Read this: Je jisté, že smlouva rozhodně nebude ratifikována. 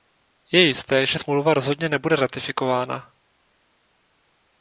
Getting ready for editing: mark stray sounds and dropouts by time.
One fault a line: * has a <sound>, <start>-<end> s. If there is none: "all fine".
all fine